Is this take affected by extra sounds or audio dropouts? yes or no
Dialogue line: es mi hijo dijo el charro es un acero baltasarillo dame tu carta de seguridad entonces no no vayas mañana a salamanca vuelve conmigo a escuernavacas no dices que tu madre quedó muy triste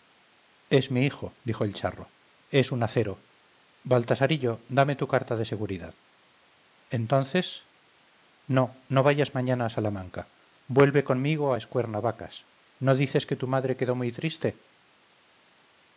no